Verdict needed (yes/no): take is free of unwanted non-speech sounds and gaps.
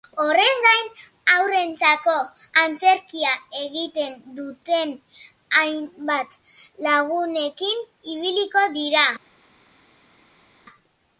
yes